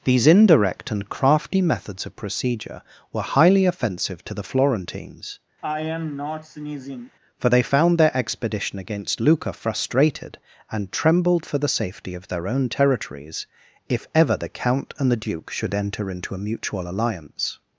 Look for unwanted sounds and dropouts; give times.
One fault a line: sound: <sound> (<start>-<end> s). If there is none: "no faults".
sound: sneeze (5.6-7.1 s)